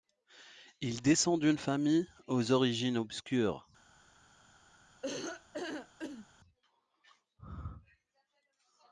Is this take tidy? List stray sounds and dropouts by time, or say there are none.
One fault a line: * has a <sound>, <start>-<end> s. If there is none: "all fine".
* has a laugh, 5.0-6.3 s